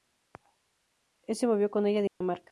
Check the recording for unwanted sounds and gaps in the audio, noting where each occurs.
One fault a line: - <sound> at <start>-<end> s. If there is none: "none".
- dropout at 2.1-2.2 s